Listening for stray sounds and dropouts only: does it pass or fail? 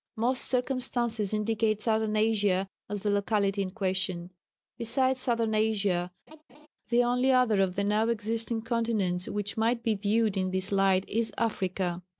fail